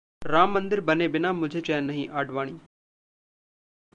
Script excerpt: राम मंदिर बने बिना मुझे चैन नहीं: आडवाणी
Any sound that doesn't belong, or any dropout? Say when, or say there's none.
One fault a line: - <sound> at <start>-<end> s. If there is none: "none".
none